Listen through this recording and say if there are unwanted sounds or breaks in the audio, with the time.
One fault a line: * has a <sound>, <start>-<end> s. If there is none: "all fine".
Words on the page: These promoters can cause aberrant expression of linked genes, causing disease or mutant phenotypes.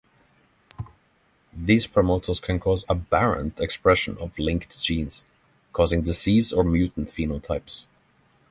* has a thud, 0.7-1.0 s